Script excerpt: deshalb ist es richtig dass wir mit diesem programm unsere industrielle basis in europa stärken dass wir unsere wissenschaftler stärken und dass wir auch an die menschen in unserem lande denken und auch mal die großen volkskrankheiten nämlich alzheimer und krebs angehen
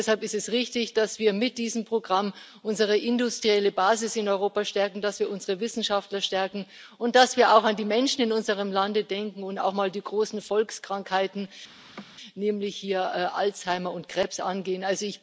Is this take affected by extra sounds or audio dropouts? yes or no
yes